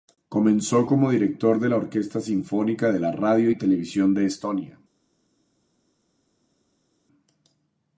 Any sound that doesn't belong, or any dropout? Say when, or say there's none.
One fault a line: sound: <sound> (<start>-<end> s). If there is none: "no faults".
no faults